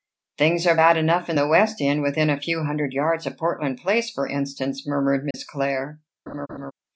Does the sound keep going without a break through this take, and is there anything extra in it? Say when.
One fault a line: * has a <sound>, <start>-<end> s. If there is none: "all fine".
* has a dropout, 5.3-5.3 s
* has a laugh, 6.3-6.7 s